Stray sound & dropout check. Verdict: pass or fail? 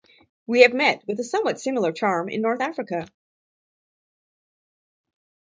pass